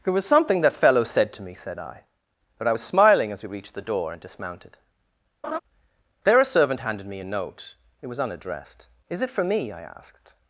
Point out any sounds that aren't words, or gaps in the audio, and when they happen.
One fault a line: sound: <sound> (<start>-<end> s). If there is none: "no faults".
sound: laugh (5.4-5.6 s)